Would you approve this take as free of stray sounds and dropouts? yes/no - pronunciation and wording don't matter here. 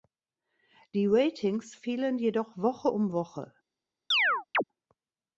no